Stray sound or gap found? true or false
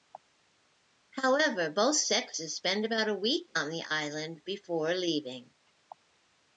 false